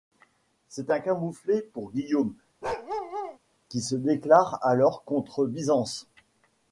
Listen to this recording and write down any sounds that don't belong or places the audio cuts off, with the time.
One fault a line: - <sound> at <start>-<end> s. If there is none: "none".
- bark at 2.6-3.4 s